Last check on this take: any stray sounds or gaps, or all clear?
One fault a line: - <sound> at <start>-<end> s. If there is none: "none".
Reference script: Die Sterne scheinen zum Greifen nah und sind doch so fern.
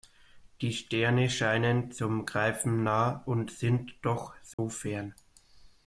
- dropout at 4.5-4.6 s